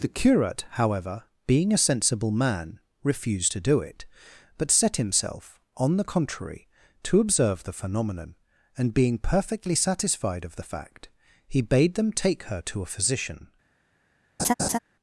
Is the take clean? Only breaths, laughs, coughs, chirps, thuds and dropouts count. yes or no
no